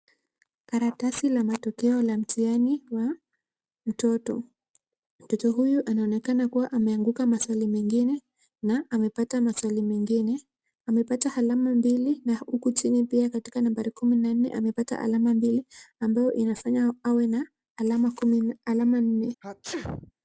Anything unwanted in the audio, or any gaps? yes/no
yes